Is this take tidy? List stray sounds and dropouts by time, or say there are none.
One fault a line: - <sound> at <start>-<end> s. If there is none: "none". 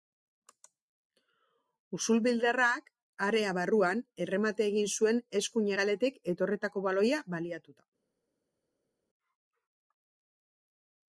none